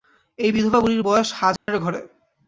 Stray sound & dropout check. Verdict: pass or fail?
fail